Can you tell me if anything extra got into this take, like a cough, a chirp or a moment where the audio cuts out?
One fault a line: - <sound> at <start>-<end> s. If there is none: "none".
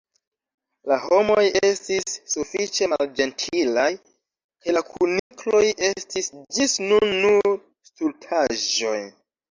- dropout at 5.2-5.3 s